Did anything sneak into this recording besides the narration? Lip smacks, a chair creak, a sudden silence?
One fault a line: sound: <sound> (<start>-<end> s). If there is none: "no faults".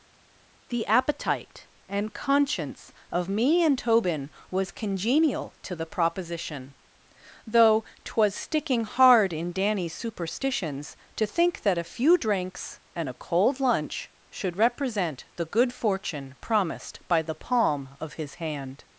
no faults